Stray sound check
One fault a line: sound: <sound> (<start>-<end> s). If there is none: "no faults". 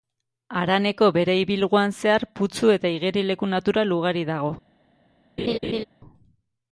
sound: laugh (5.4-5.8 s)